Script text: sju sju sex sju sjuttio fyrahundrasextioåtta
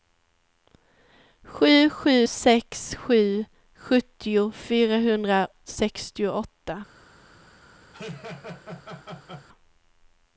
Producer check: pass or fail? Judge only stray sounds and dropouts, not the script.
fail